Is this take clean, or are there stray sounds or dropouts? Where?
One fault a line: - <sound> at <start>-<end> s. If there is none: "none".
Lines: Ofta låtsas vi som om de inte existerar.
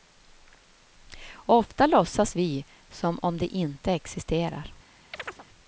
- chirp at 5.1-5.5 s